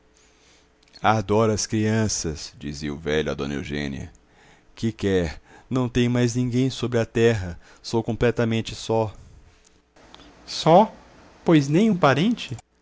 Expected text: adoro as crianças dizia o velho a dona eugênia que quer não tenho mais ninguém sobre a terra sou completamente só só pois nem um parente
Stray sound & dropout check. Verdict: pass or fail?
pass